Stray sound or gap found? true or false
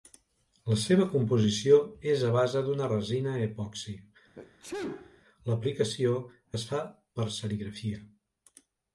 true